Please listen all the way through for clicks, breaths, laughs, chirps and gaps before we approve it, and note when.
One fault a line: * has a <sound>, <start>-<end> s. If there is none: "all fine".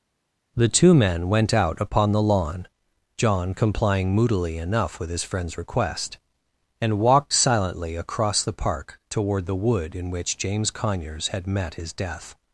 all fine